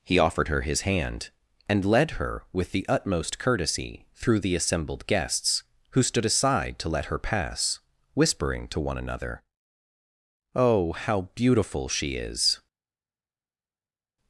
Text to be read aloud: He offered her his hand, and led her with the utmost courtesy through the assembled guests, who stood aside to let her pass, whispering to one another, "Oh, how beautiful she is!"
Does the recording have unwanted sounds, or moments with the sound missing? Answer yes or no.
no